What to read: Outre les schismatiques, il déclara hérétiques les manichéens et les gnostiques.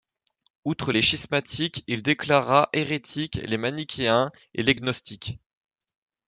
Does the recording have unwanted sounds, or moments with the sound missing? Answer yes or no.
no